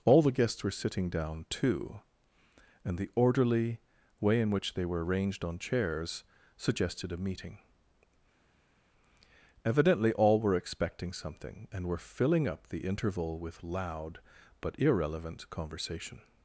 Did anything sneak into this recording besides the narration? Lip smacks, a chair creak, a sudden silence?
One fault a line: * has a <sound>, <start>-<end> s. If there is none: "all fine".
all fine